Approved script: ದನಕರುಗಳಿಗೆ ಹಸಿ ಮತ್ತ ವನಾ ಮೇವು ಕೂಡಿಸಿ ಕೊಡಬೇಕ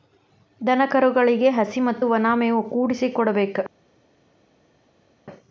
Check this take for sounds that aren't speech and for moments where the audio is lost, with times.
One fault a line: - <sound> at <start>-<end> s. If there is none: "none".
none